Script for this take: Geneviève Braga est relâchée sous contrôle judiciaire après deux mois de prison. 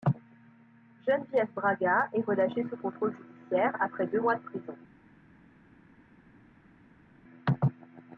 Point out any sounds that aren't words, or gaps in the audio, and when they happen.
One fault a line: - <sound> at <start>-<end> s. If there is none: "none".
none